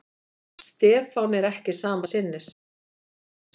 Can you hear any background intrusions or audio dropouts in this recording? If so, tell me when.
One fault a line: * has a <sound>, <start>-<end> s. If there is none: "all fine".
all fine